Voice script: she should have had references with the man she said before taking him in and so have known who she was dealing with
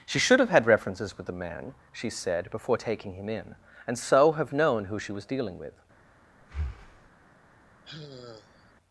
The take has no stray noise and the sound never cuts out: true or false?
false